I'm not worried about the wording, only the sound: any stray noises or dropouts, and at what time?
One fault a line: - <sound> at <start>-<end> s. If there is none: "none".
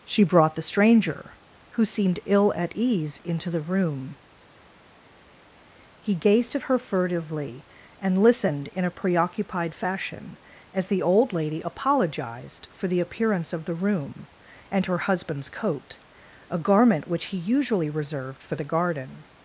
none